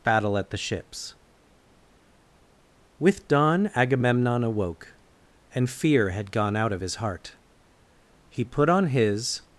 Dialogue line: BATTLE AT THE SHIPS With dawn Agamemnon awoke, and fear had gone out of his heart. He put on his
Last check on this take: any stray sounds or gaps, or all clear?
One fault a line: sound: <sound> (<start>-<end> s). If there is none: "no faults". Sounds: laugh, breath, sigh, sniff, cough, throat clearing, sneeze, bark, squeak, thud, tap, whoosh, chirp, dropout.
no faults